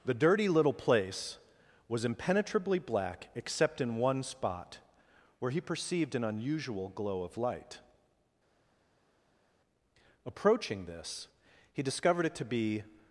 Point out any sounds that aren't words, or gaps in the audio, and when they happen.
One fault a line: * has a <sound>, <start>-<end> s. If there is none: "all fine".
all fine